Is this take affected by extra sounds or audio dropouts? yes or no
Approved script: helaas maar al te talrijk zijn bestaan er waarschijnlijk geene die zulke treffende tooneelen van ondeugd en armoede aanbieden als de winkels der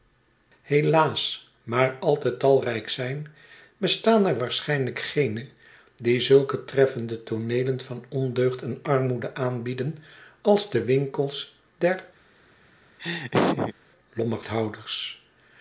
yes